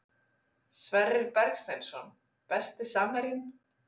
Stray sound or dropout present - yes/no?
no